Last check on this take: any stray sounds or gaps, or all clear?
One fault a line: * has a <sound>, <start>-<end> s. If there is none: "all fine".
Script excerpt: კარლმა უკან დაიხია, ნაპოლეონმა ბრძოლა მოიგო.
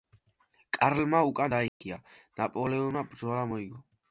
* has a dropout, 1.7-1.8 s